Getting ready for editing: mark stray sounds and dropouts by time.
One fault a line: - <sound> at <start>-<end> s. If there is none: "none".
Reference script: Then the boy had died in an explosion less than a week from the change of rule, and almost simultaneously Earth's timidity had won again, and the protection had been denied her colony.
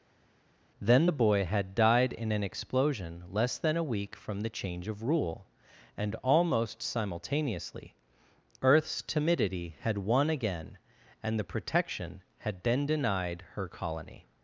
none